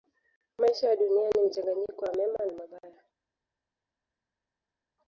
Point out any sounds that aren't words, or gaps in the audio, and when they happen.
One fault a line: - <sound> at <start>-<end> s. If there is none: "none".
none